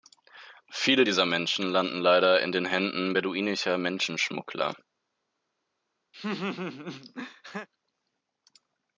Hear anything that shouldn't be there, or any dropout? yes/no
yes